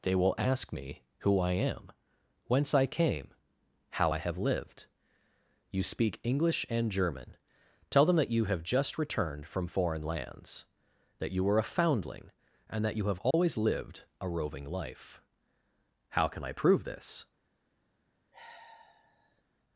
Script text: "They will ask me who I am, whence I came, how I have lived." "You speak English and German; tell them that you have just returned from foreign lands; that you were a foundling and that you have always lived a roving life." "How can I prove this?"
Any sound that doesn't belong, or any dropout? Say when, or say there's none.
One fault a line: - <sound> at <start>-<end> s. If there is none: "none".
- dropout at 13.3-13.3 s
- sigh at 18.3-19.4 s